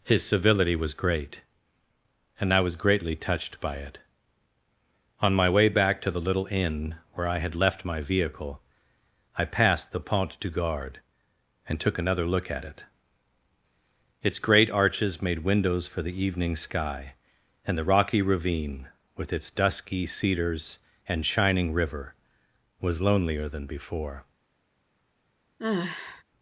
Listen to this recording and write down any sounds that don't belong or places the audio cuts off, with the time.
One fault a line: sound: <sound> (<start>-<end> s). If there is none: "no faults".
sound: sigh (25.6-26.2 s)